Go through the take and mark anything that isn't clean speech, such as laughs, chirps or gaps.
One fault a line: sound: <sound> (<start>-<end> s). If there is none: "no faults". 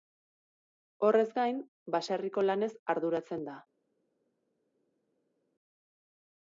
no faults